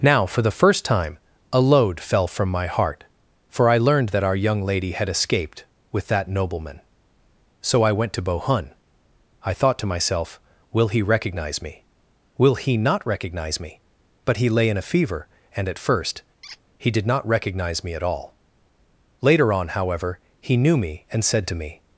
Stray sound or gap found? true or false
true